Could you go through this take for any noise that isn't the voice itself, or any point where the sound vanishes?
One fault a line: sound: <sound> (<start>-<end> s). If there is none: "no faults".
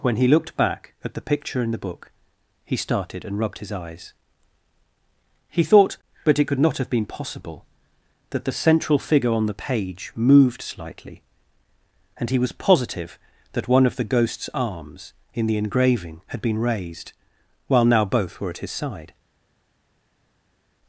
no faults